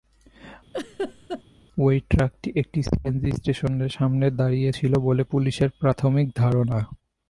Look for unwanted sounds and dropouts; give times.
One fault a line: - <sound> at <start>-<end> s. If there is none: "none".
- laugh at 0.7-1.4 s